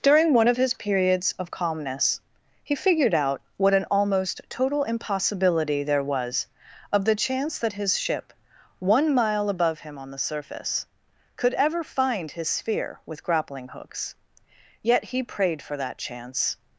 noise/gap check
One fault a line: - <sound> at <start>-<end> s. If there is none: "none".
none